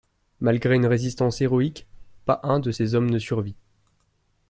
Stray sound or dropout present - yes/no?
no